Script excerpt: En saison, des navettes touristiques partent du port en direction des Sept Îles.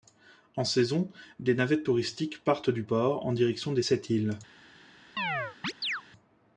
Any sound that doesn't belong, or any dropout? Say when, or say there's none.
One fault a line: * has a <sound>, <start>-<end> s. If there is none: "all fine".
* has a chirp, 5.2-6.0 s